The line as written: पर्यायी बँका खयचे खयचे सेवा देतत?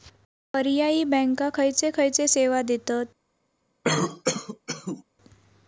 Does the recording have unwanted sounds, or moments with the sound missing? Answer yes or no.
yes